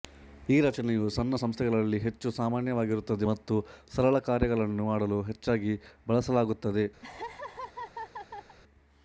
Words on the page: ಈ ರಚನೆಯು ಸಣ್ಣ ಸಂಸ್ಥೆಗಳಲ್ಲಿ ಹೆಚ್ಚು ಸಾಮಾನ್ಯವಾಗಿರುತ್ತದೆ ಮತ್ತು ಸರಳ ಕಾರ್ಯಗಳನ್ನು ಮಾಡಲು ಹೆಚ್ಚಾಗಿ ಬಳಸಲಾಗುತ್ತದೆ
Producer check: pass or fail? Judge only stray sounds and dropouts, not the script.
fail